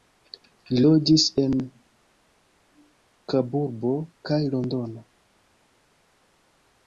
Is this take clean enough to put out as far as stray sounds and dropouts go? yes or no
yes